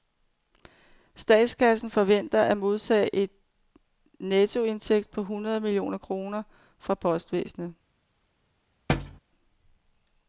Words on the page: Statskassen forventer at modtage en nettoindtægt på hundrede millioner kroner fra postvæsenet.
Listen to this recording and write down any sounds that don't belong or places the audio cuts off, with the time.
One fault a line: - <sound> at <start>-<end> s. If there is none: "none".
- thud at 8.9-9.2 s